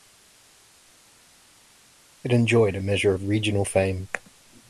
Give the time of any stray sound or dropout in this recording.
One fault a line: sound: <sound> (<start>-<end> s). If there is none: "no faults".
no faults